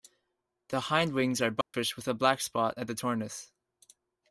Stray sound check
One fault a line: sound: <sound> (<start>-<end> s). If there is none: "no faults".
sound: dropout (1.6-1.7 s)